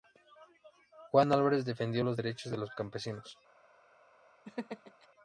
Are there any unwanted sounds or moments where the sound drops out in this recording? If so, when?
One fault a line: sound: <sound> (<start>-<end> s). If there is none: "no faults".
sound: laugh (4.4-5.1 s)